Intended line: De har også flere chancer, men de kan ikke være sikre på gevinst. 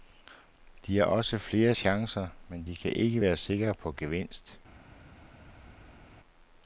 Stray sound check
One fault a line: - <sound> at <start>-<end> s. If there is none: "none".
none